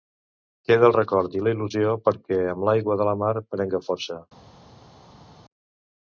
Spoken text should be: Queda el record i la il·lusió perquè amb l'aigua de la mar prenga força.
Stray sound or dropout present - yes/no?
no